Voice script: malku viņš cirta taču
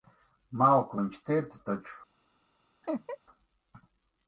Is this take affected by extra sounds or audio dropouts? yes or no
yes